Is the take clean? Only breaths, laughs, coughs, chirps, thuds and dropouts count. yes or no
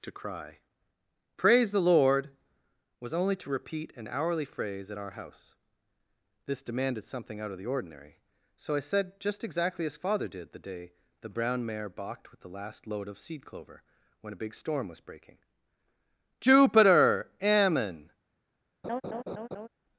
no